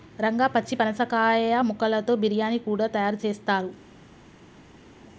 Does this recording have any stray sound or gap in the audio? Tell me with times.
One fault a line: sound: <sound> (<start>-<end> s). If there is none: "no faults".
no faults